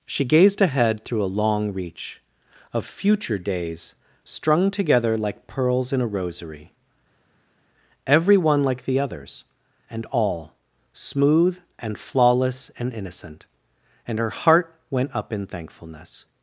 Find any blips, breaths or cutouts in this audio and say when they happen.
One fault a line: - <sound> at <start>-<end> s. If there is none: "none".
none